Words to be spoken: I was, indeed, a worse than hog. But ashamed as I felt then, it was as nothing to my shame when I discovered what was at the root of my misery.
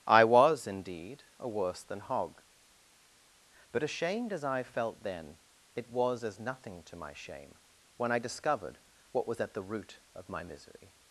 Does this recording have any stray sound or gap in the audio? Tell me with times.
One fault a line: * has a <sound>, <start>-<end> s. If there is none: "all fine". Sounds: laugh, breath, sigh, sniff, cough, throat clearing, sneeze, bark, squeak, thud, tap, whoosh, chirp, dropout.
all fine